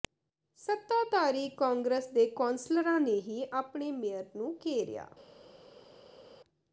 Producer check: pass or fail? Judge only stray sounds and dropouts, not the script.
pass